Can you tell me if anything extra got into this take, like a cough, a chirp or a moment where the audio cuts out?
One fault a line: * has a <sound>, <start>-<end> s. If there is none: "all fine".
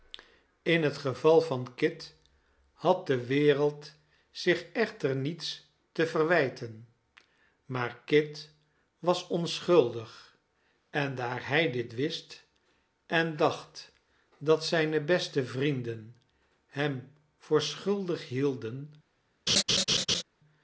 * has a laugh, 19.5-20.2 s